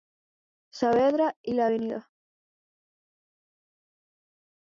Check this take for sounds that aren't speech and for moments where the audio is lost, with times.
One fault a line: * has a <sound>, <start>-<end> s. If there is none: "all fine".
all fine